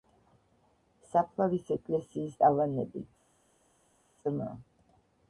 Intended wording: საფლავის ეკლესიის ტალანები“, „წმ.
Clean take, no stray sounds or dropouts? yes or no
yes